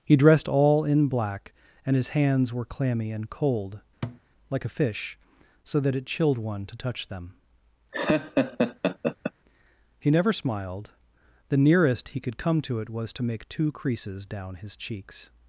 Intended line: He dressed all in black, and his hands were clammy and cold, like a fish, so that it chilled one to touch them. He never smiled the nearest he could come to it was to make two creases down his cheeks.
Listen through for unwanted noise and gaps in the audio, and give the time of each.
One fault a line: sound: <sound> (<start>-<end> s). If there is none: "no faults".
sound: thud (4.0-4.2 s)
sound: laugh (7.9-9.3 s)